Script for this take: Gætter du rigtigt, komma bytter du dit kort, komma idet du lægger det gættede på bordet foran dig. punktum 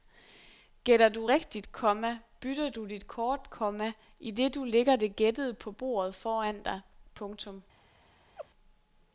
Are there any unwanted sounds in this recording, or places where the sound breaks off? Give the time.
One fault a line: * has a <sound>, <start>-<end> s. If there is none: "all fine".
* has a laugh, 8.4-8.5 s